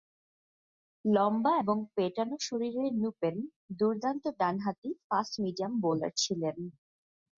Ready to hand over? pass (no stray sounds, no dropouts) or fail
pass